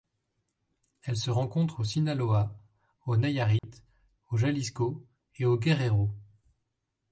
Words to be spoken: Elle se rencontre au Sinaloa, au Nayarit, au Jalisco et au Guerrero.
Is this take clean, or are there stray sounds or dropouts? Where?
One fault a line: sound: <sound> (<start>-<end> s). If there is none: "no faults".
sound: dropout (3.6-3.6 s)